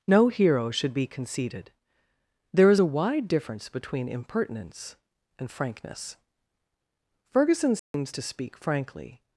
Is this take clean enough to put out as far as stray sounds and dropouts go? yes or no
no